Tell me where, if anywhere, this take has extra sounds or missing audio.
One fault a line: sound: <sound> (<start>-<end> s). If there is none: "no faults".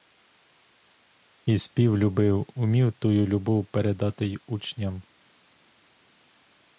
no faults